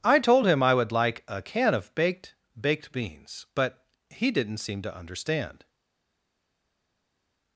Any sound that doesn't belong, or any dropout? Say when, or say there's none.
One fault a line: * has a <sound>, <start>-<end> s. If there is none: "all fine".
all fine